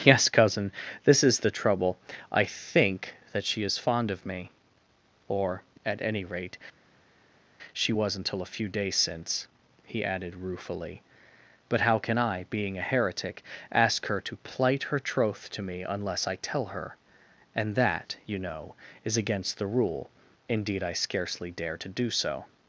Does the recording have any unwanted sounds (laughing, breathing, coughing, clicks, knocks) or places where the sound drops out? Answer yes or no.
no